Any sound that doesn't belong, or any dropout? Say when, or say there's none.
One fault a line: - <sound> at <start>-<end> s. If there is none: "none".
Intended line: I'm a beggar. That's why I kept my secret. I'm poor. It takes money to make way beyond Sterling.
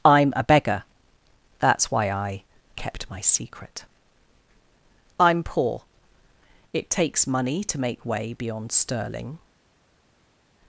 none